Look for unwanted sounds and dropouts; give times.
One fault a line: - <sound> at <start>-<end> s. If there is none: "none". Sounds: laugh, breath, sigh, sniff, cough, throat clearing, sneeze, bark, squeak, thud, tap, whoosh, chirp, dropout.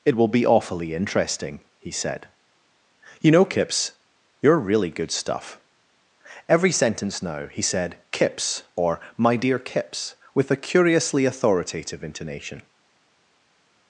none